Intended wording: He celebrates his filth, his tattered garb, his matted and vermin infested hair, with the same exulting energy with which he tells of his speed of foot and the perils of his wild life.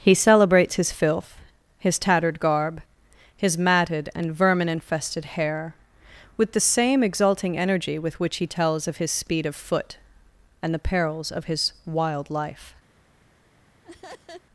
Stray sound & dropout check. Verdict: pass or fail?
fail